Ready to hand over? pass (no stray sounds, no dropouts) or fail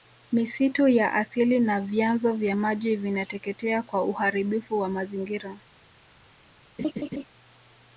fail